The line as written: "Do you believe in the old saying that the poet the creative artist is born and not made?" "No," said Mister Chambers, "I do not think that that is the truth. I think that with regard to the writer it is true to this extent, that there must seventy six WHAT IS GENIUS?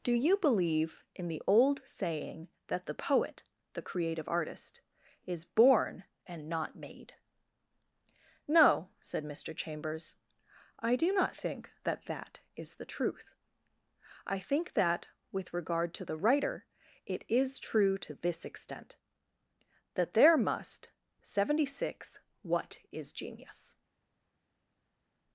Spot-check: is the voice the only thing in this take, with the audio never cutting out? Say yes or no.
yes